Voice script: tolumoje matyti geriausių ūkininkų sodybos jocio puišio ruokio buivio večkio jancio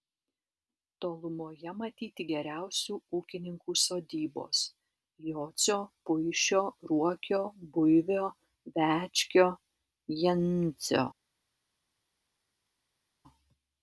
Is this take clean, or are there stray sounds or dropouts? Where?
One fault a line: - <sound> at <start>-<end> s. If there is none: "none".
none